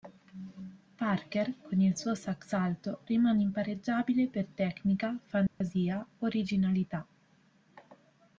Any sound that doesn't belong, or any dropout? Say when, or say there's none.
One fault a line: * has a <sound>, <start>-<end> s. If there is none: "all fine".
* has a dropout, 5.5-5.6 s